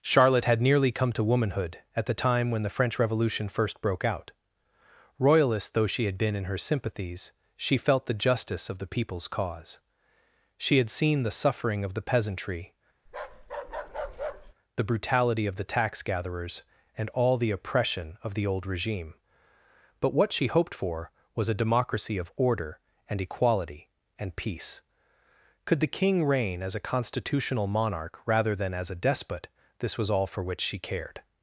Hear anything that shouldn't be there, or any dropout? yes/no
yes